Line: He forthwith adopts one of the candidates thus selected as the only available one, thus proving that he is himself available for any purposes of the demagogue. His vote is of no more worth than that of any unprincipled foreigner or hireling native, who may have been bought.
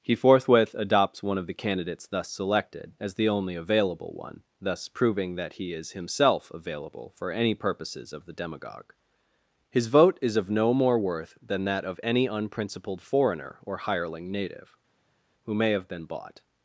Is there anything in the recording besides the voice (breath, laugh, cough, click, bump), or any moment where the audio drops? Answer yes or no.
no